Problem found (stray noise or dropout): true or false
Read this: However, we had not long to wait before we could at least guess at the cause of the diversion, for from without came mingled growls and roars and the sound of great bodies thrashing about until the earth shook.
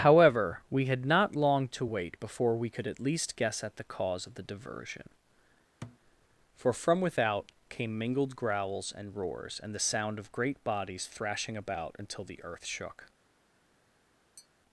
true